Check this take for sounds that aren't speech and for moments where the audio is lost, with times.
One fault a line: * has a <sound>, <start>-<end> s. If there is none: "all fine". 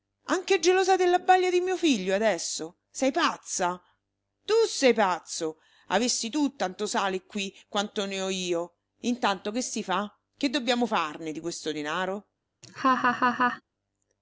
* has a laugh, 12.6-13.6 s